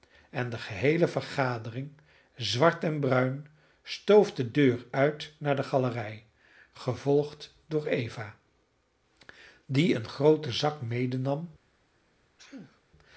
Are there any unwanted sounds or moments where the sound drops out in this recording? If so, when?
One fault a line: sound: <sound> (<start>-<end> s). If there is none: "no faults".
sound: sneeze (12.4-12.8 s)